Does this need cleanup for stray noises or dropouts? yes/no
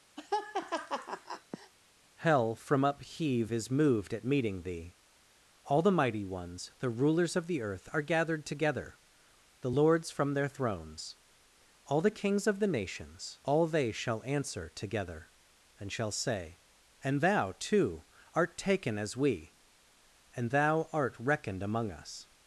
yes